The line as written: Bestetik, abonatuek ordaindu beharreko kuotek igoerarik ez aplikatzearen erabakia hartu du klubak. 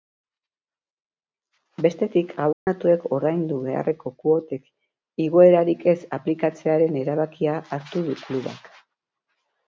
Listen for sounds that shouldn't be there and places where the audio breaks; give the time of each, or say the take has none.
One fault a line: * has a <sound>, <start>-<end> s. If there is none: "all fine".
* has a dropout, 2.5-2.7 s